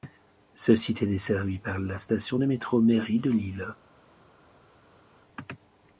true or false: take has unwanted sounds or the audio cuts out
false